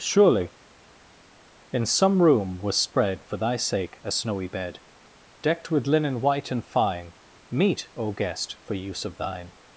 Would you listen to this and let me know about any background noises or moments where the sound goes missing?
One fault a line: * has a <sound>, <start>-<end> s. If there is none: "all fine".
all fine